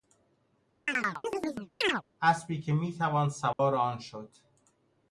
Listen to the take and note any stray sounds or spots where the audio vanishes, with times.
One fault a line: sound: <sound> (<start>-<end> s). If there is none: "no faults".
sound: chirp (0.9-2.0 s)
sound: dropout (3.5-3.6 s)